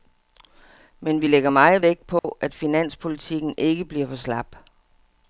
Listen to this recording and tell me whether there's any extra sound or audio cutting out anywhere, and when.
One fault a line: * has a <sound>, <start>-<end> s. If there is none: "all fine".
* has a dropout, 2.2-2.2 s